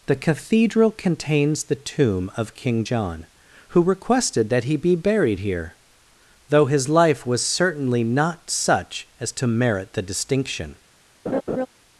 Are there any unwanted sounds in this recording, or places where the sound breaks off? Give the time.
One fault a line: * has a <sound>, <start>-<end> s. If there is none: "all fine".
* has a laugh, 11.3-11.7 s